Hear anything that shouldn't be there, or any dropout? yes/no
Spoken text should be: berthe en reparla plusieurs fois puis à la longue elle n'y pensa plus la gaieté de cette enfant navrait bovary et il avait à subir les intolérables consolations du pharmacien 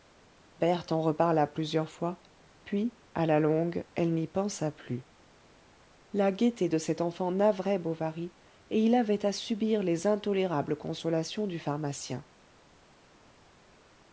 no